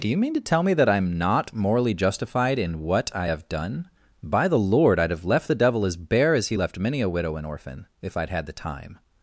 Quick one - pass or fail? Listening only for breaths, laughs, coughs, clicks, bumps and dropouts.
pass